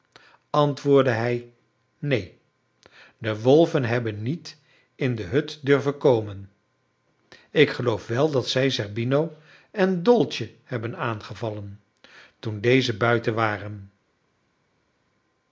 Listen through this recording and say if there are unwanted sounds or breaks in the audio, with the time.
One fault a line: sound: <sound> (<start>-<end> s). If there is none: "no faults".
no faults